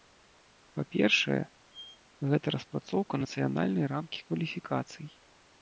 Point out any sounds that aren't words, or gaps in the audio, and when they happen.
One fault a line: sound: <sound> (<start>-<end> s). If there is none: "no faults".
sound: squeak (1.7-2.0 s)